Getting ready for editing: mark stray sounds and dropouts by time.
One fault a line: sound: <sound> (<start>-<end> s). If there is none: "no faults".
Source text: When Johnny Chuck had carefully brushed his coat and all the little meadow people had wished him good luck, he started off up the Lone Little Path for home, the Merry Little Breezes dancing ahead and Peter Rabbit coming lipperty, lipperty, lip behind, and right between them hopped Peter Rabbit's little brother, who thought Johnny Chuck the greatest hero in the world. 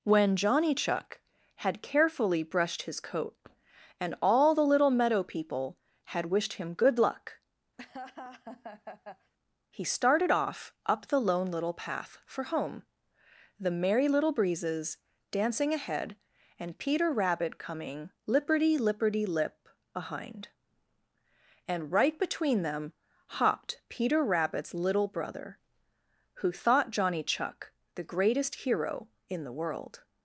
sound: laugh (7.8-9.3 s)